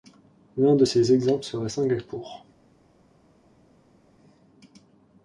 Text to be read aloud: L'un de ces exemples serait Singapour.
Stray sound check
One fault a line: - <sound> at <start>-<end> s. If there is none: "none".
none